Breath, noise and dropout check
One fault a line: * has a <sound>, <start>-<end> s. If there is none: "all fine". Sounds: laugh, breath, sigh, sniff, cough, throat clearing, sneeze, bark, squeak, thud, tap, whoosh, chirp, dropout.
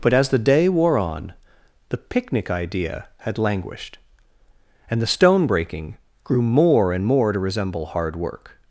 all fine